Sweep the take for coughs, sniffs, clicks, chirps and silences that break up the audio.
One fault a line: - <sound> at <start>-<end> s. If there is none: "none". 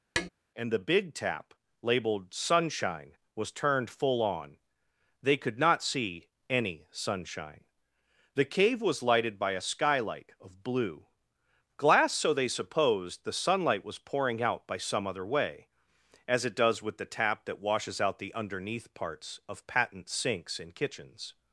- tap at 0.2-0.3 s